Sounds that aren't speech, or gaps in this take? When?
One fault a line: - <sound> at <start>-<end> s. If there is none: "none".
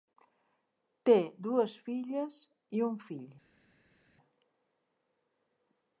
none